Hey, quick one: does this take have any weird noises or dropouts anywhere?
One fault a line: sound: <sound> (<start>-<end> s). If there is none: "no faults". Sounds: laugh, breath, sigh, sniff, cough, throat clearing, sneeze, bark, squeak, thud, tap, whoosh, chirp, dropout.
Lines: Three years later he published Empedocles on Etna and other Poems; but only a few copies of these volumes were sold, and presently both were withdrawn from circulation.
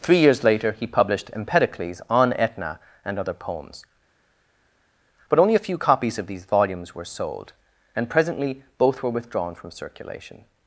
no faults